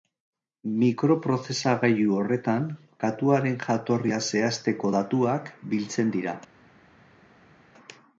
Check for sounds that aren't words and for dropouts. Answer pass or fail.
pass